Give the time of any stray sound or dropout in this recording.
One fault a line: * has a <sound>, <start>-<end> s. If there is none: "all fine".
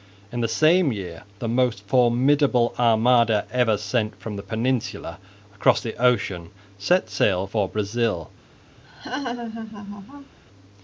* has a laugh, 8.8-10.4 s